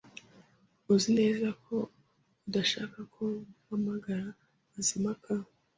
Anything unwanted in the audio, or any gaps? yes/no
no